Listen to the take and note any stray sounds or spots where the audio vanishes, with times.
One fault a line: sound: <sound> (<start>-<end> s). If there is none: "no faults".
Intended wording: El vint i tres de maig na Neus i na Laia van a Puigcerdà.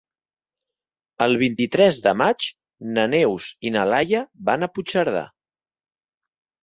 no faults